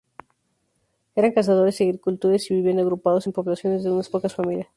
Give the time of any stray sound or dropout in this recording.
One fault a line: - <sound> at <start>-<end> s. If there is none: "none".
none